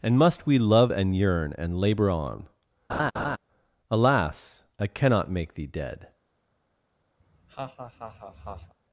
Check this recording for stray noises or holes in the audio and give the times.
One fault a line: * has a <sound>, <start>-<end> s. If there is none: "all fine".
* has a laugh, 2.9-3.4 s
* has a laugh, 7.2-8.7 s